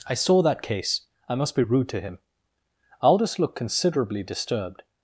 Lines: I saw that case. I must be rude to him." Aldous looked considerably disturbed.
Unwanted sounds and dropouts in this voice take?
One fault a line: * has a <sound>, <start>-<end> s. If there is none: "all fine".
all fine